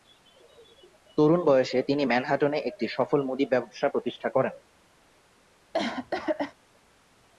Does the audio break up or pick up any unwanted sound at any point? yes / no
yes